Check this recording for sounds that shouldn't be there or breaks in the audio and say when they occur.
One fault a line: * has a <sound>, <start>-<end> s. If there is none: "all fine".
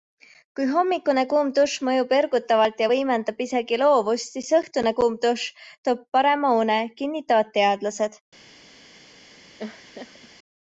* has a laugh, 9.6-10.3 s